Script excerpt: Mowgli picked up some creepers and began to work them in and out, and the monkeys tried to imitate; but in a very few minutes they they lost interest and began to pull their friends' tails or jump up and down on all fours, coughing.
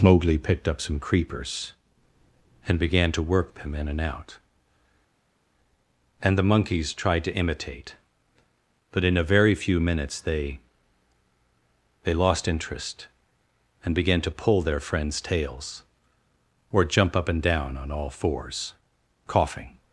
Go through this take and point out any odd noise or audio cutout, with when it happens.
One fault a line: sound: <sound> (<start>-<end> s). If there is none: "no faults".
no faults